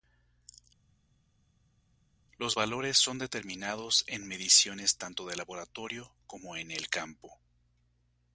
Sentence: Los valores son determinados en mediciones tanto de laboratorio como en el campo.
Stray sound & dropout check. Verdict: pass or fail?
pass